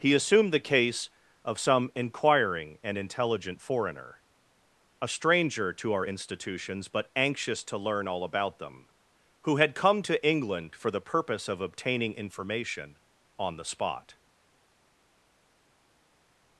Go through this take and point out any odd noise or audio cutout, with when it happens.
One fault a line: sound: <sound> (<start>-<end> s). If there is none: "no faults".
no faults